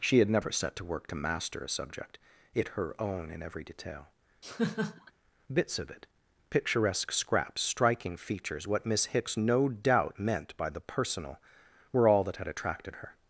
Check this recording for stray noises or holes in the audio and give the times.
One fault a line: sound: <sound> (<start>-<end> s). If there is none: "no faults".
sound: laugh (4.4-5.1 s)